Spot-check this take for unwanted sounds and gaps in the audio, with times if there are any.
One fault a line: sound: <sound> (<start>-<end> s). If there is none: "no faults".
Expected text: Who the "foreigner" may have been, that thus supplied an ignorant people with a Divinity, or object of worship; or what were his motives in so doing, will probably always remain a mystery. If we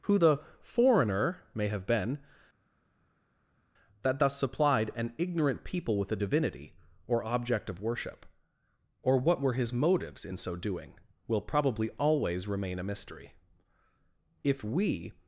no faults